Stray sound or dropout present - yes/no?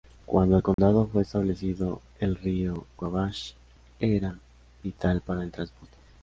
yes